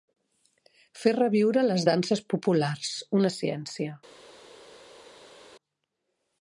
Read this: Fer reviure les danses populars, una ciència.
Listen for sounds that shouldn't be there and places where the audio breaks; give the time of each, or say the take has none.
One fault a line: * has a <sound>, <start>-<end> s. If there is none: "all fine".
all fine